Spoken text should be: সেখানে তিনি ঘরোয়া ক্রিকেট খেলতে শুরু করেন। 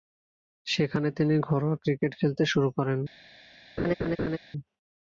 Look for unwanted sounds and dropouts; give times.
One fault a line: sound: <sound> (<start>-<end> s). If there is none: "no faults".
sound: laugh (3.8-4.4 s)